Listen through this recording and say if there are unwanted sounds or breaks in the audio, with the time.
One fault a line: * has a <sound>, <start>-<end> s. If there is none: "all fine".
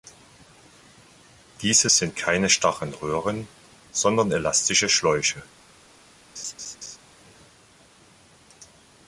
* has a laugh, 6.4-7.0 s